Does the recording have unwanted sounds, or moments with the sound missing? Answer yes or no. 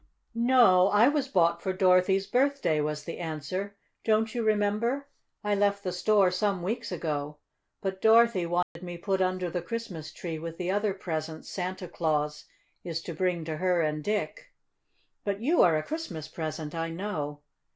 yes